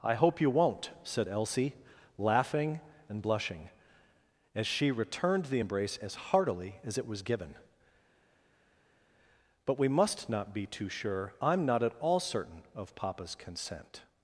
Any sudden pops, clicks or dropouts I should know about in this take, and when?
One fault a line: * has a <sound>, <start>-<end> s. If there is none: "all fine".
all fine